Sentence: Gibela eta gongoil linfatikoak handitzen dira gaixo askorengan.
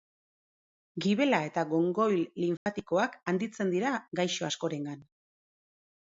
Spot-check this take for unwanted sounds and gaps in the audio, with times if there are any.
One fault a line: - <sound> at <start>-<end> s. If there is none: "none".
- dropout at 2.6-2.7 s